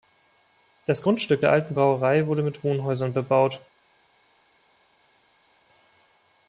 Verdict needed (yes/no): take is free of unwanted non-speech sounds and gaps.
yes